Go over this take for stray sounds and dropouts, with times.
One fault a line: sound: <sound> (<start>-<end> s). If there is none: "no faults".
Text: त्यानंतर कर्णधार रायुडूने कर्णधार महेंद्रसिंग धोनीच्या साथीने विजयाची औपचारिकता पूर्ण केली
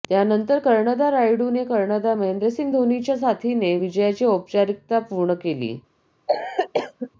sound: cough (6.3-7.1 s)